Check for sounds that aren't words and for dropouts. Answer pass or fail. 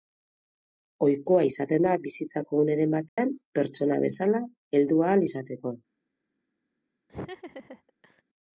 fail